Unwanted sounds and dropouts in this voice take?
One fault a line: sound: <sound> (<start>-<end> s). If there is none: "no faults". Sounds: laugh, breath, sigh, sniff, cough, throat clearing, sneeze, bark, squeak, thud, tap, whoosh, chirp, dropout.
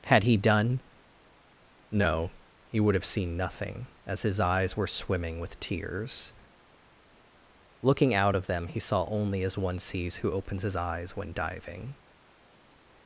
no faults